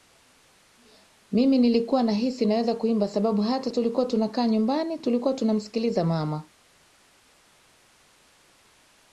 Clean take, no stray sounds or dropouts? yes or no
yes